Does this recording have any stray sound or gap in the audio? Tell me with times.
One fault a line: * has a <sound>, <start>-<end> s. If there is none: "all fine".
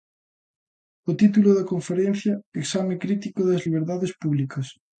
all fine